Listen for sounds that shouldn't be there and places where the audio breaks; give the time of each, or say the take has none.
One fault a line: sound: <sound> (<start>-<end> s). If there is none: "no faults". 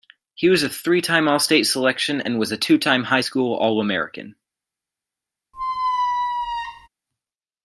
sound: squeak (5.5-6.9 s)